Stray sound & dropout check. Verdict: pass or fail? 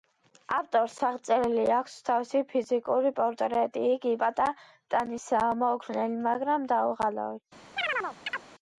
fail